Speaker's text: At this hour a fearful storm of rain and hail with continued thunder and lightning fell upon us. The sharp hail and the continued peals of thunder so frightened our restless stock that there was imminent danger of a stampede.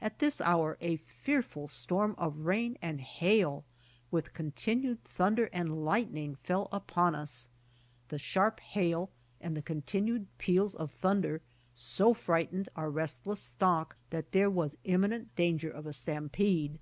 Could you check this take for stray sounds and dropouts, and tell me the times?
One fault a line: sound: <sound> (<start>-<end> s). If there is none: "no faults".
no faults